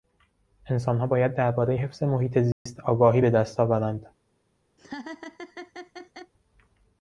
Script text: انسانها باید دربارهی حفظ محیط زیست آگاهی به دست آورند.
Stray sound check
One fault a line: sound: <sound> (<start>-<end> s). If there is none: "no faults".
sound: dropout (2.5-2.7 s)
sound: laugh (4.8-6.3 s)